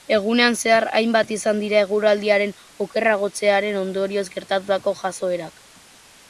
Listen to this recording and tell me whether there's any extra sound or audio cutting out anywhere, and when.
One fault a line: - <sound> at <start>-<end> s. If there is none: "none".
none